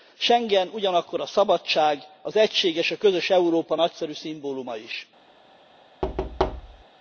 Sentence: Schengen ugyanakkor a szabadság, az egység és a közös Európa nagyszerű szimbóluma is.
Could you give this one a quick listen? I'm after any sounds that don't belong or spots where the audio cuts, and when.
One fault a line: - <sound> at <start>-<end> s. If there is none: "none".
- thud at 6.0-6.8 s